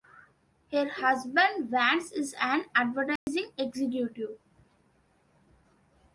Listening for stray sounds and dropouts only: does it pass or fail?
fail